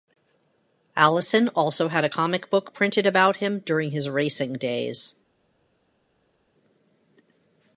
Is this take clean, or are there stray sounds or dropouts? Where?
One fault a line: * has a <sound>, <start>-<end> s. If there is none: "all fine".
all fine